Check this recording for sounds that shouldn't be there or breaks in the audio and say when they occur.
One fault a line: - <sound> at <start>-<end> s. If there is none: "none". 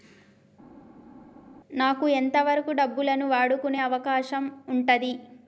none